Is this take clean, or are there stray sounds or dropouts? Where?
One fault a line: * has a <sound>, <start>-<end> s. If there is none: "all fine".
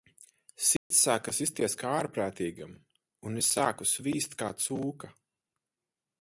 * has a dropout, 0.8-0.9 s